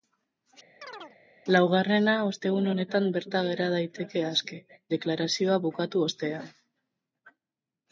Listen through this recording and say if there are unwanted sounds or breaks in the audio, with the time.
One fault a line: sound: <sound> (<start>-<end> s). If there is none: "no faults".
sound: chirp (0.8-1.2 s)